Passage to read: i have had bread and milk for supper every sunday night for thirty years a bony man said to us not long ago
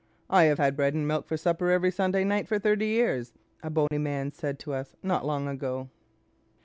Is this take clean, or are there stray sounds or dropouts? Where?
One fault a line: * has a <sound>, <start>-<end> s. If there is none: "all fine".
* has a dropout, 3.9-3.9 s